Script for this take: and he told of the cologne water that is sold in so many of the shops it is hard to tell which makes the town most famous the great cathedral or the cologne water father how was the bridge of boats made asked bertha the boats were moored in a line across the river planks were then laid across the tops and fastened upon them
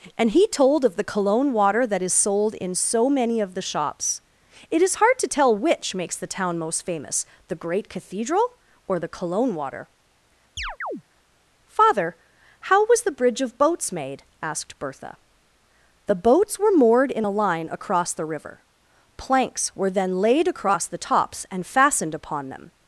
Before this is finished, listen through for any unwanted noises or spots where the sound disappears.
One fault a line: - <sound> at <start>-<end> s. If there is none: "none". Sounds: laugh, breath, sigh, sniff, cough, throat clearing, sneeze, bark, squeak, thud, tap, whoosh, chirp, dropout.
- chirp at 10.6-11.0 s